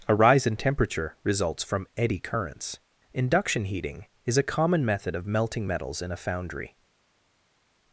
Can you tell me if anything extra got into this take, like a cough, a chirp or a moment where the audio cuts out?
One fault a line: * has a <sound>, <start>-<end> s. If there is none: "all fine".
all fine